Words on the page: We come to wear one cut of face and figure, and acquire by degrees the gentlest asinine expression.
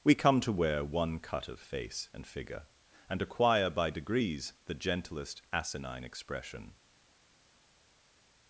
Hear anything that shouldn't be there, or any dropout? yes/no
no